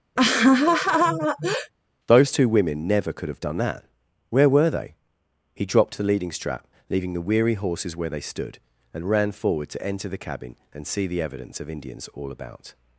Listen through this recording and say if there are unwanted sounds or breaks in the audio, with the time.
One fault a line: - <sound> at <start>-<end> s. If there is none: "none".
- laugh at 0.2-1.7 s